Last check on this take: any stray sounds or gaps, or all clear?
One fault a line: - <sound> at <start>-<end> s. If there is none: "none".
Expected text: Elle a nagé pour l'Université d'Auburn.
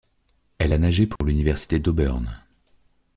- dropout at 1.2-1.2 s